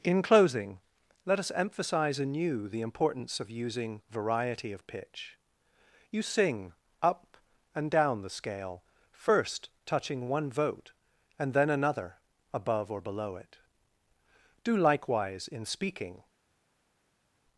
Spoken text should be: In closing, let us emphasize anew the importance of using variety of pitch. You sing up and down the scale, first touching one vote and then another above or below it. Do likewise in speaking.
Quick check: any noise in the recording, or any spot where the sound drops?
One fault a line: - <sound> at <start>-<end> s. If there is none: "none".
none